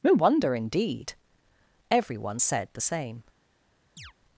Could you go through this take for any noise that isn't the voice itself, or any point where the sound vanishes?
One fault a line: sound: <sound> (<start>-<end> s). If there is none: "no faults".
sound: chirp (4.0-4.1 s)